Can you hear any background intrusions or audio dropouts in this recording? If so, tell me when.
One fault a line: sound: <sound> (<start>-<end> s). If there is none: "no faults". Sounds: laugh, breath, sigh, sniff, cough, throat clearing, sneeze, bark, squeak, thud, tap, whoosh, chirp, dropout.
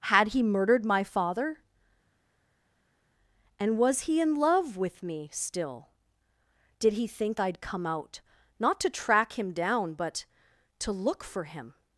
no faults